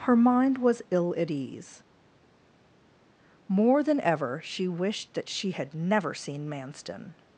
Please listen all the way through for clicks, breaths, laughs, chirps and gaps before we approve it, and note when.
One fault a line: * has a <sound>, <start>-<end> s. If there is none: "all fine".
all fine